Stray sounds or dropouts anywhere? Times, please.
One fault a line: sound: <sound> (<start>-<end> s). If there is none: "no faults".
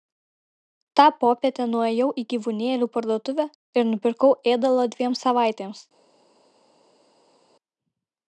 no faults